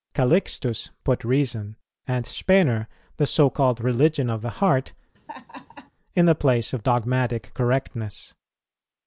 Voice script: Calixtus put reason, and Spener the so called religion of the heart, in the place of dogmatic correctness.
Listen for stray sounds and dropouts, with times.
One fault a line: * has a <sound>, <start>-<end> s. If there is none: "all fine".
* has a laugh, 5.1-5.9 s